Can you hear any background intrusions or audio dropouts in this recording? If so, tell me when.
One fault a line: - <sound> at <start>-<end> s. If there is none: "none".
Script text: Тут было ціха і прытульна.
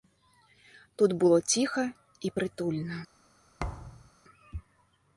- thud at 3.6-4.1 s